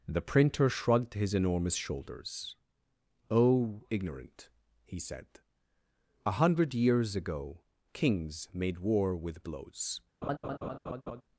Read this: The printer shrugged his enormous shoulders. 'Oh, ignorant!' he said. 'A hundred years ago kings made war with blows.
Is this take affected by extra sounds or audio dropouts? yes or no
yes